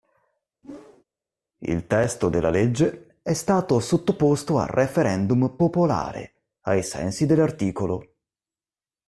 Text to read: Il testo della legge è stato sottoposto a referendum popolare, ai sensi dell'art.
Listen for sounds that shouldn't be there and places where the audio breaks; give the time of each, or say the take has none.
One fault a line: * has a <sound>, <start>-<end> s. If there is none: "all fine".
* has a whoosh, 0.6-1.0 s